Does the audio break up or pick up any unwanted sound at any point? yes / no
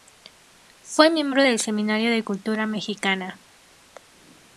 no